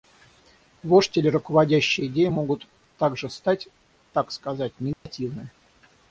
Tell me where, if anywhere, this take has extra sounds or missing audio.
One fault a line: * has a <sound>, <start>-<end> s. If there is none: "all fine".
* has a dropout, 4.9-5.1 s